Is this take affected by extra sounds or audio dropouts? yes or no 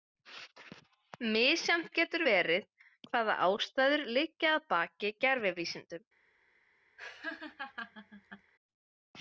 yes